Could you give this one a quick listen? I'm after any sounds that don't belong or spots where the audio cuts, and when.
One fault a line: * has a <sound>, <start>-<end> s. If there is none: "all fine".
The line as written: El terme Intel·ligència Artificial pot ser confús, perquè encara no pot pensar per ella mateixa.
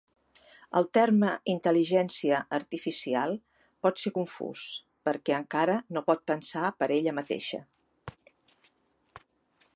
all fine